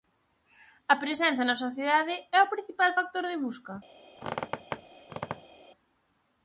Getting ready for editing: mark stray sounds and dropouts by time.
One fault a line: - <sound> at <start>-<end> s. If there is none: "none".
- squeak at 4.1-5.7 s